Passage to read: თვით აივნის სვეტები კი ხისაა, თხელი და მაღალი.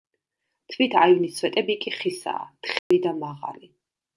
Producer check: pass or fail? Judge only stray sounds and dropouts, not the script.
fail